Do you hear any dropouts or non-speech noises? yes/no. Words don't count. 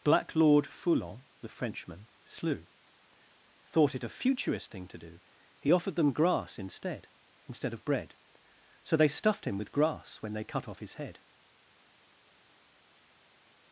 no